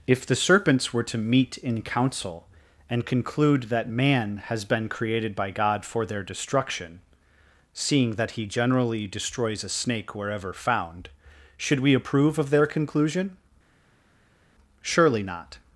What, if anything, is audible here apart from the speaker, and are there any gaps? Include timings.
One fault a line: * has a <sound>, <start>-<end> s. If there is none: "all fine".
all fine